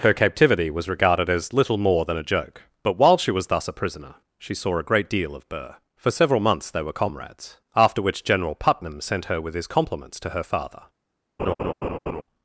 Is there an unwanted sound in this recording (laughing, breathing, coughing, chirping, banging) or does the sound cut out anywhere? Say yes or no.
yes